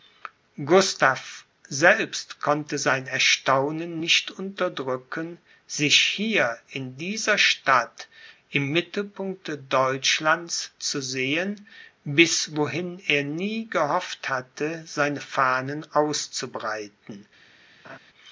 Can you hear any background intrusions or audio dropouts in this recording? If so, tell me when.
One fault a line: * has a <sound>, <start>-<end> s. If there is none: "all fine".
* has a laugh, 17.8-18.0 s